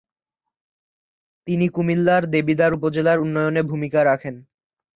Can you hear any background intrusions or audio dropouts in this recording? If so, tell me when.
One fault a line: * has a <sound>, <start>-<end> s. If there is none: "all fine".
all fine